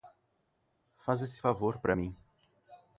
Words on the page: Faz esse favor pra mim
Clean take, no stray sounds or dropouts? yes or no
yes